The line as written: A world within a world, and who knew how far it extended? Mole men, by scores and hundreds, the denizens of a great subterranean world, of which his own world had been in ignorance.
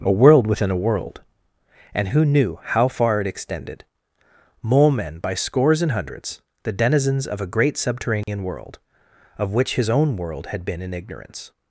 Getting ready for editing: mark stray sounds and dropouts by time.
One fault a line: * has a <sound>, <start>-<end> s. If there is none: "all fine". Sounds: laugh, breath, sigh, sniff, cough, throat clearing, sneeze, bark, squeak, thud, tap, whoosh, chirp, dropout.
* has a dropout, 8.2-8.3 s